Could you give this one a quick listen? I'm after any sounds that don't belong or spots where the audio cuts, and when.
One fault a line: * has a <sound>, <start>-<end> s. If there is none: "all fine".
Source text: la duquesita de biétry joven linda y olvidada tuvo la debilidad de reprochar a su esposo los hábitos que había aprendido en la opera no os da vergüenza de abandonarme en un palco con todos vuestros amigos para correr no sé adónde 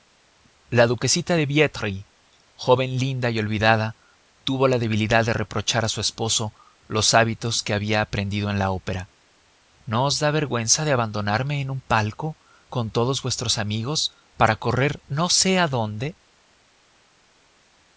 all fine